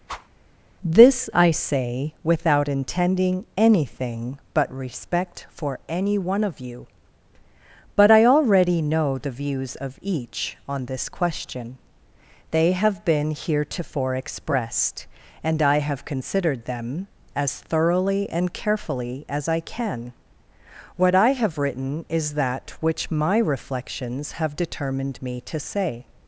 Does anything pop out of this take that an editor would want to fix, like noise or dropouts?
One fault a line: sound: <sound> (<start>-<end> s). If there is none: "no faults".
sound: whoosh (0.1-0.3 s)